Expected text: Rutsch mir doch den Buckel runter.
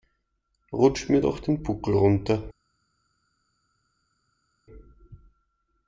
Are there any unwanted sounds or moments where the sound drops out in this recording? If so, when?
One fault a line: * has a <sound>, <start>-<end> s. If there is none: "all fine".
all fine